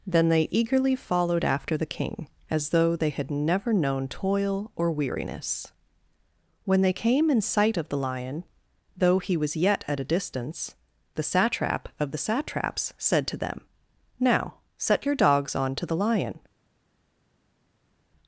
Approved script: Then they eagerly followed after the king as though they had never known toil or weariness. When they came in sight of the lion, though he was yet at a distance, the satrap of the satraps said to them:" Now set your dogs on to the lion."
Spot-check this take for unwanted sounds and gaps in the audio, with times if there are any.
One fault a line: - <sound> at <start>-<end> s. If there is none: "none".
none